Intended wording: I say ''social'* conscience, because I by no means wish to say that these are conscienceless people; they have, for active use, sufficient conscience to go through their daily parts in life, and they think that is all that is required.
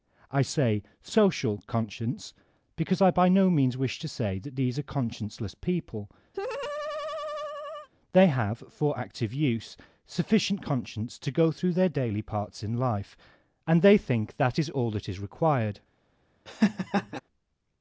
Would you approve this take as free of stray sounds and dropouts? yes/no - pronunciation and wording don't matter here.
no